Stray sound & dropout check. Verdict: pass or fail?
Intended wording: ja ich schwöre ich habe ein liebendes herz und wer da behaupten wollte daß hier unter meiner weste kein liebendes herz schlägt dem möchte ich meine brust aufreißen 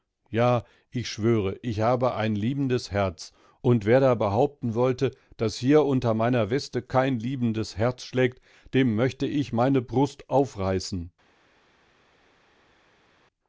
pass